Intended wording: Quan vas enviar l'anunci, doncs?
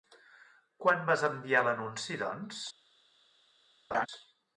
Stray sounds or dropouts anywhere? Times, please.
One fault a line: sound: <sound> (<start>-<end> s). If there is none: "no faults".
sound: laugh (3.9-4.1 s)